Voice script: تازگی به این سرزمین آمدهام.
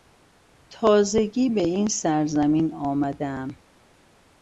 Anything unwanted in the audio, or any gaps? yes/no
no